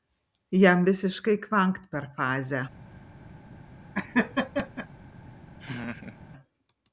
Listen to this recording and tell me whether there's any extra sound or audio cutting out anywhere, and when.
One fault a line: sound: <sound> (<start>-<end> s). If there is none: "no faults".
sound: laugh (3.9-4.9 s)
sound: laugh (5.6-6.2 s)